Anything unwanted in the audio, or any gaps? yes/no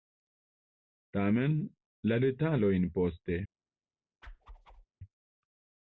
yes